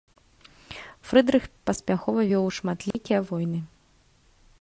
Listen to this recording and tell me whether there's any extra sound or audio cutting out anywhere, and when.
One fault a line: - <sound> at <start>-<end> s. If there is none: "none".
- dropout at 2.9-2.9 s